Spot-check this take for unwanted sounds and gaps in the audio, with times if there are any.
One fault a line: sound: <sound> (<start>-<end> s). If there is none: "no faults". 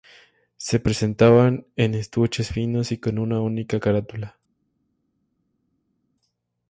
no faults